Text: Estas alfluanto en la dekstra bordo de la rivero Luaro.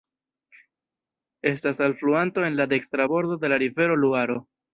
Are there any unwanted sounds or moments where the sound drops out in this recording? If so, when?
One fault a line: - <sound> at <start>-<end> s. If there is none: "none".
none